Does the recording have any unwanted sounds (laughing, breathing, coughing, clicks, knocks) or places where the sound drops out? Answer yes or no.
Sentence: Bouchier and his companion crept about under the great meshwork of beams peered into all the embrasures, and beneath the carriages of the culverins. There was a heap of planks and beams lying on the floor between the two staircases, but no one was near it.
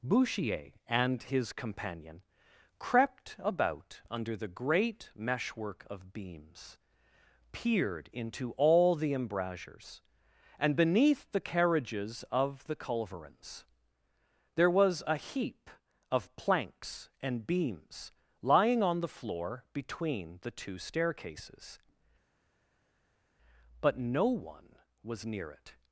no